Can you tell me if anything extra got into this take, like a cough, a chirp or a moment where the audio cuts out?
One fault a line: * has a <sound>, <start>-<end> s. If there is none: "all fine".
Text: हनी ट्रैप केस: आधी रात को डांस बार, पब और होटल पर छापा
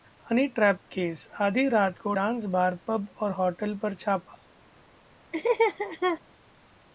* has a laugh, 5.3-6.2 s